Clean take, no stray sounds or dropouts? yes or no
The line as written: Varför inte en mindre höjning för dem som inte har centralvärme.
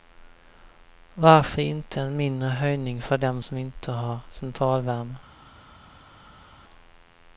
yes